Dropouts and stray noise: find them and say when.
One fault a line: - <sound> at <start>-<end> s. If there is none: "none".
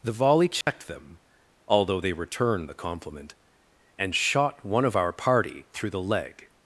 - dropout at 0.6-0.7 s